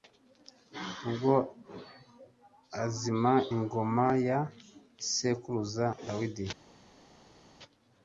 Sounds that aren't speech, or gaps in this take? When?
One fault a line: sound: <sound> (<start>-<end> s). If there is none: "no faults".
no faults